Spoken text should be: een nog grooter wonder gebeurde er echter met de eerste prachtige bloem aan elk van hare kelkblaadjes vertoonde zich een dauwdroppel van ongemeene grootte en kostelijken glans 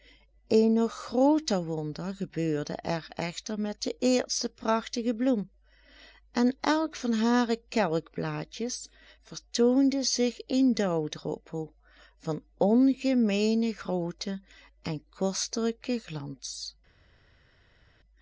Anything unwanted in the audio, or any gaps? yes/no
no